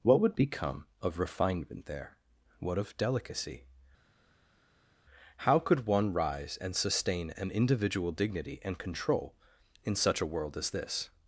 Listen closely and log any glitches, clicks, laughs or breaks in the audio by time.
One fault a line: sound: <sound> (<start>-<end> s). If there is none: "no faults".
no faults